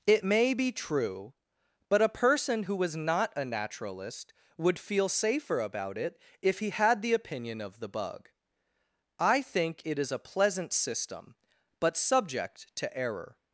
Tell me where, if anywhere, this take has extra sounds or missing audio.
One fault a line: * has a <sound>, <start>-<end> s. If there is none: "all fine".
all fine